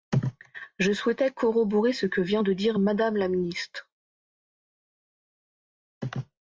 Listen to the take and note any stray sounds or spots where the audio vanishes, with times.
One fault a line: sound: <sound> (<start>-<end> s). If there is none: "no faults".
no faults